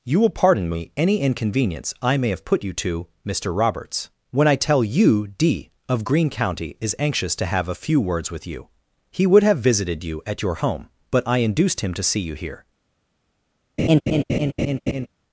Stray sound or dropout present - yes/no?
yes